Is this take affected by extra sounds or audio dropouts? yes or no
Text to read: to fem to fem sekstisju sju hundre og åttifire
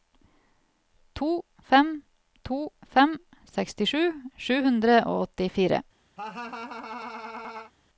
yes